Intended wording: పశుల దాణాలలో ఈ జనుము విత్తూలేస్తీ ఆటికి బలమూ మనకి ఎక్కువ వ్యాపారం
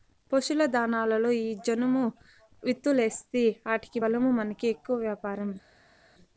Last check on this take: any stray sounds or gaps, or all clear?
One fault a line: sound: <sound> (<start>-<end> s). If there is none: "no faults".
no faults